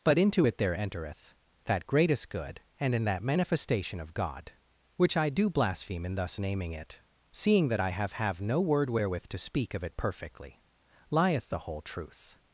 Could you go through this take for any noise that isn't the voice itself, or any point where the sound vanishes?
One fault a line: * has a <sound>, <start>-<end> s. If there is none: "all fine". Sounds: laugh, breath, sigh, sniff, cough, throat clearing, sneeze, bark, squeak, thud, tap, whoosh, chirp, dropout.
all fine